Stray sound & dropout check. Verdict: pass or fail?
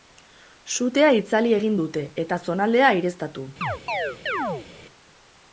fail